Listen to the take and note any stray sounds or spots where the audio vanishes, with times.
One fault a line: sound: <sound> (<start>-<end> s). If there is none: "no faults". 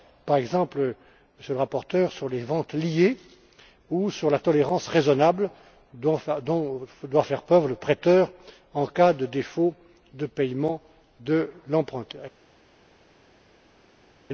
no faults